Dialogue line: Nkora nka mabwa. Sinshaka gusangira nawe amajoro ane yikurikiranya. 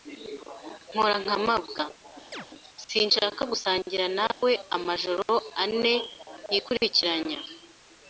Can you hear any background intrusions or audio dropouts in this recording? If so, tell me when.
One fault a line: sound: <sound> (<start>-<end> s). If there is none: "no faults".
sound: chirp (2.3-2.5 s)
sound: dropout (4.3-4.4 s)